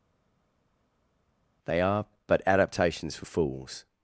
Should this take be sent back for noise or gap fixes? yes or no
no